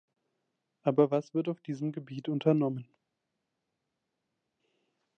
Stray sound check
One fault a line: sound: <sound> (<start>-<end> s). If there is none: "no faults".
no faults